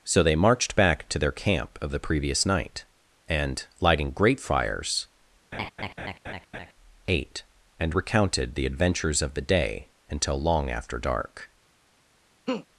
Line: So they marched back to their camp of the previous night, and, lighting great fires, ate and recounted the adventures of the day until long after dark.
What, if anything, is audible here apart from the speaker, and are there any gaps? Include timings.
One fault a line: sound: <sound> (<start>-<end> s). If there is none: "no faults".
sound: laugh (5.5-6.7 s)
sound: laugh (12.5-12.7 s)